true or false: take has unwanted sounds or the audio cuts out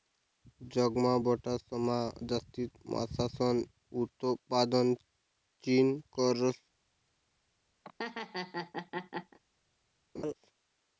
true